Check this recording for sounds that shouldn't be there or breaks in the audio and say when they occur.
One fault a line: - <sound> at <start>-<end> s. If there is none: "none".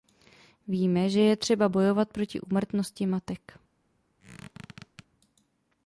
- squeak at 4.2-5.1 s